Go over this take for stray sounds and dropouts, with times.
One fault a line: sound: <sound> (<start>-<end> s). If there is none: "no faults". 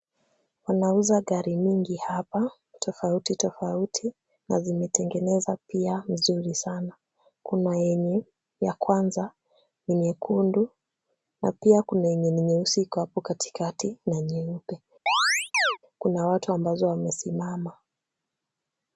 sound: chirp (15.1-15.8 s)